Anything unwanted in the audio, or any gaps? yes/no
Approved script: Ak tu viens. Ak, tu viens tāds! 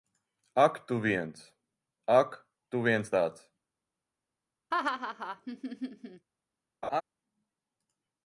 yes